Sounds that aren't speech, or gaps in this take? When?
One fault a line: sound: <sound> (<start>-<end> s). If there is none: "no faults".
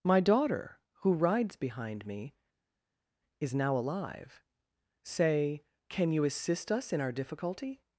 no faults